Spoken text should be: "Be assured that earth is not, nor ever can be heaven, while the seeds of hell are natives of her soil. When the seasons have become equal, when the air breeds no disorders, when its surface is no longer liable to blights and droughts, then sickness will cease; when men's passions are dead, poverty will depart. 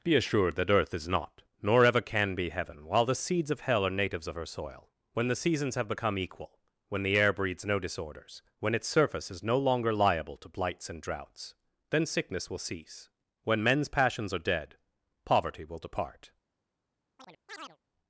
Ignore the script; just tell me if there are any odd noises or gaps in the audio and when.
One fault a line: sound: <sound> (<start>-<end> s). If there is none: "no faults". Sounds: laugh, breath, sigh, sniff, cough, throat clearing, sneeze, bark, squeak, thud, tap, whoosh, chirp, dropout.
sound: chirp (17.2-17.8 s)